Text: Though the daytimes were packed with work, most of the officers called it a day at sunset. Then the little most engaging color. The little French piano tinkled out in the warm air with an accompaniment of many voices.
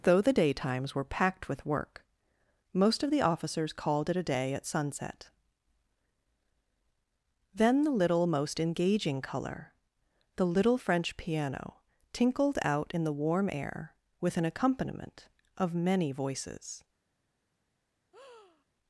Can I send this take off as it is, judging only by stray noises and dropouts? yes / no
no